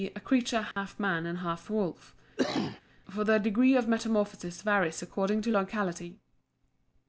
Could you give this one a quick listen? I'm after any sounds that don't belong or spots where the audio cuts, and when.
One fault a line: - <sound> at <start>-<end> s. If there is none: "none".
- dropout at 0.7-0.8 s
- cough at 2.4-2.8 s